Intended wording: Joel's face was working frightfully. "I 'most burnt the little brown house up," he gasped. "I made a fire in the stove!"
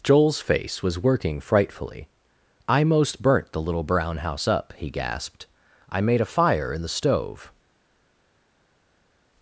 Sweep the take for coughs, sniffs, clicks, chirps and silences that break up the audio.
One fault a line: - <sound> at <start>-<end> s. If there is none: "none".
none